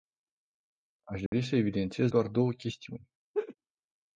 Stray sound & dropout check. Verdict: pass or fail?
fail